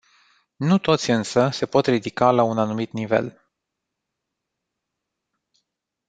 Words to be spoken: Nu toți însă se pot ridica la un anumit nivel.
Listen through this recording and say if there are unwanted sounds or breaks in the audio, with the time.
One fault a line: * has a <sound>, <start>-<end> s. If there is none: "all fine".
all fine